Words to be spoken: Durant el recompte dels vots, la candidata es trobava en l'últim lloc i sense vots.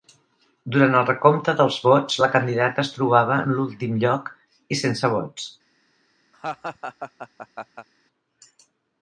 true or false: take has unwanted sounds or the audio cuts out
true